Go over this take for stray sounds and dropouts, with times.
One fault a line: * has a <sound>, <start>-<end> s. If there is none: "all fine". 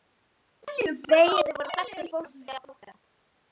all fine